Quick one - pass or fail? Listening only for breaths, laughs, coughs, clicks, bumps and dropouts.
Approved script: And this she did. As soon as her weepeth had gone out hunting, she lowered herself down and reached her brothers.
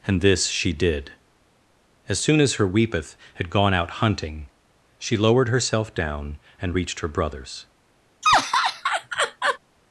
fail